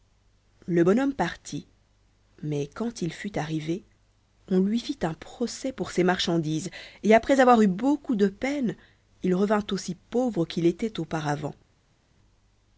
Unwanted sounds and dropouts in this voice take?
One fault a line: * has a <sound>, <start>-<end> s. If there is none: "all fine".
all fine